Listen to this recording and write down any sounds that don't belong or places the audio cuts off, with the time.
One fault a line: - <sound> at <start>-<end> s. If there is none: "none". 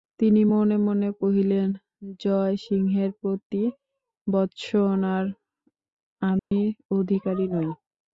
- dropout at 6.4-6.5 s